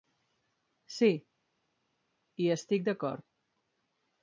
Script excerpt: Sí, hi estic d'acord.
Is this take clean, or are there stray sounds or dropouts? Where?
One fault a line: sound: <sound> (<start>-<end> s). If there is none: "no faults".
no faults